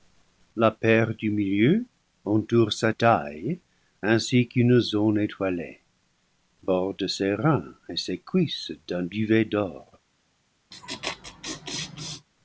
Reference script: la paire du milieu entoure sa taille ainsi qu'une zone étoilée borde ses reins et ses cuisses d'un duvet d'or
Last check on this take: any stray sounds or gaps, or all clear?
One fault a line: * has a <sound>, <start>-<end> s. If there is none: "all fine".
* has a laugh, 10.7-12.3 s